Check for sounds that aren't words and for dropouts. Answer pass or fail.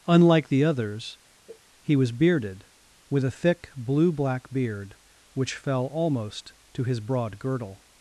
fail